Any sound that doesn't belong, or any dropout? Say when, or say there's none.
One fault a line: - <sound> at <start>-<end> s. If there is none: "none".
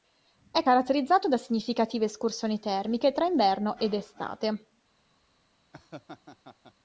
- laugh at 5.7-6.7 s